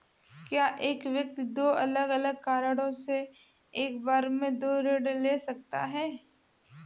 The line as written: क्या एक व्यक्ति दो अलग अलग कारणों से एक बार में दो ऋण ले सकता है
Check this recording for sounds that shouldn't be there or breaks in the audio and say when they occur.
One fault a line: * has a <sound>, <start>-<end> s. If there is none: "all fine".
all fine